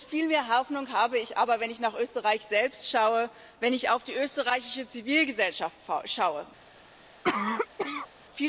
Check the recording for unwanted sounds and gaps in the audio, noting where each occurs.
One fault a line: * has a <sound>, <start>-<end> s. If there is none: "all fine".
* has a cough, 7.2-8.1 s